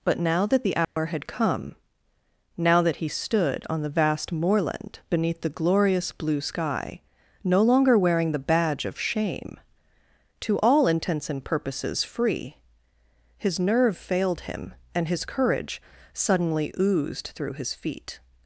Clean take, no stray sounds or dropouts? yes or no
no